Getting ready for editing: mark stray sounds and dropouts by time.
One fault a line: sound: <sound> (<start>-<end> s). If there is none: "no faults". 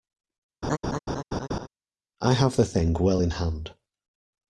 sound: laugh (0.6-1.7 s)